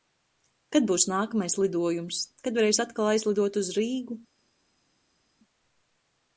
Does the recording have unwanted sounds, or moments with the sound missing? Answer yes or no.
no